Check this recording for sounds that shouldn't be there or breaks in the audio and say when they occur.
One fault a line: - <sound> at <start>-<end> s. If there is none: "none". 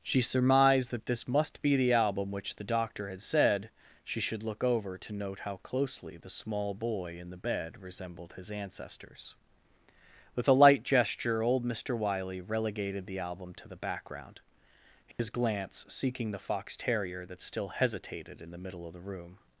- dropout at 15.1-15.2 s